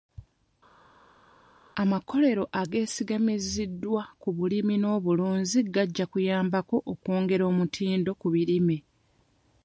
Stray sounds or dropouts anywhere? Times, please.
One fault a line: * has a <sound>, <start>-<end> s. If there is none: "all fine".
all fine